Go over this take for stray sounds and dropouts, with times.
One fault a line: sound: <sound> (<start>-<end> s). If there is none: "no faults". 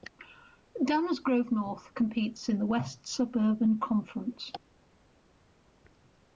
no faults